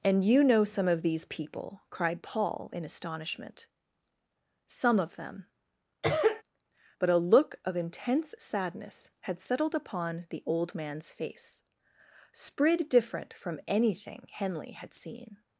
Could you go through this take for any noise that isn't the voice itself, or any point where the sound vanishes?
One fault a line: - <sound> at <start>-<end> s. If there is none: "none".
- cough at 6.0-6.4 s